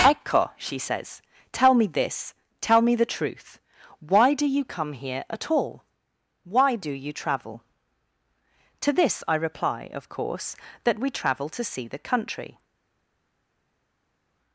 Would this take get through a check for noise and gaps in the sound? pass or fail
pass